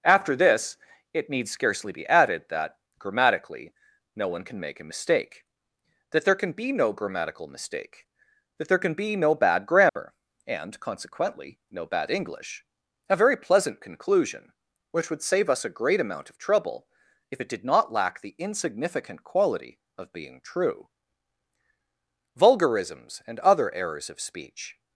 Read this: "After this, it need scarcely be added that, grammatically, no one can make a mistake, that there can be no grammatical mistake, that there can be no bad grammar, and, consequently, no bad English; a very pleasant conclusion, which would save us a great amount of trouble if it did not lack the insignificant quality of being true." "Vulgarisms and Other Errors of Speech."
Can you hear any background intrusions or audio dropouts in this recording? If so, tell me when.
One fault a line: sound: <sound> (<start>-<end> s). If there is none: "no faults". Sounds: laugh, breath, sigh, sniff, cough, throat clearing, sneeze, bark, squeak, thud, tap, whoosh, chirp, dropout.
sound: dropout (9.9-10.0 s)